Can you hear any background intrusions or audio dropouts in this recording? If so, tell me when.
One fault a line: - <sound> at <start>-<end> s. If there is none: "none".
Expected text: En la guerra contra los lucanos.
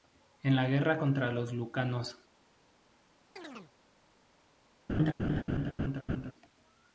- chirp at 3.4-3.7 s
- laugh at 4.9-6.3 s